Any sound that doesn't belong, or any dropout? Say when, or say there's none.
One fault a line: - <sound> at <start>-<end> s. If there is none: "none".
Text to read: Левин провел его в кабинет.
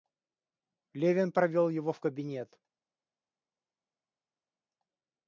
none